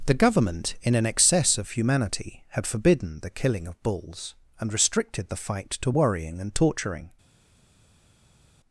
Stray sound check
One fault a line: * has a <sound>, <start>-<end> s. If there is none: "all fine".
all fine